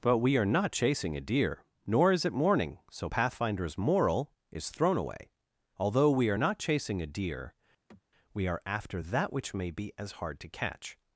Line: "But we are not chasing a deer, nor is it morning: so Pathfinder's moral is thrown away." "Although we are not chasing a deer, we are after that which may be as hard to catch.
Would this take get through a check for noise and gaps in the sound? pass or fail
fail